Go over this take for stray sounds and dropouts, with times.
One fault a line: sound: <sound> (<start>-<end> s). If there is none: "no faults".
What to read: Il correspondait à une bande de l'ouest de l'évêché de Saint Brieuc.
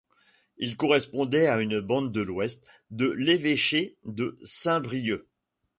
no faults